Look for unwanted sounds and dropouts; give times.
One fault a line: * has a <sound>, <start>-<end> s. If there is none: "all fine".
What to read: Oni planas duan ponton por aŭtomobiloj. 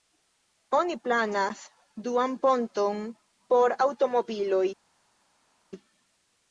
all fine